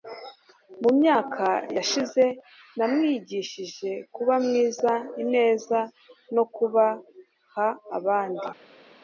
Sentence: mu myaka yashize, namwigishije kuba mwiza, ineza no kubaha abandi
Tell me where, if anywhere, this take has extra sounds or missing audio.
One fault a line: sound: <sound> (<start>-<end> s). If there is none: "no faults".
no faults